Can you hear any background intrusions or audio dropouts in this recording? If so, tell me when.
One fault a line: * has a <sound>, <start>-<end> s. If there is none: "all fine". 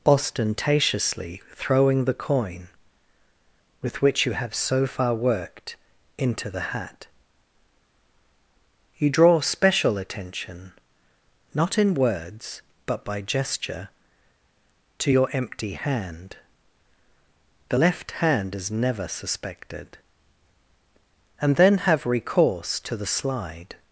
all fine